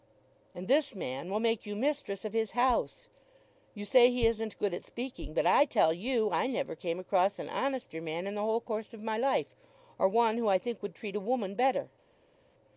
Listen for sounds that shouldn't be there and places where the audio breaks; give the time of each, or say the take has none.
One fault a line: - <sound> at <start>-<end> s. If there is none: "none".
none